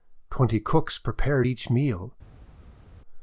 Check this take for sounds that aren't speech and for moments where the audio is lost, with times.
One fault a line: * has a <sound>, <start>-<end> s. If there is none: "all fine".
all fine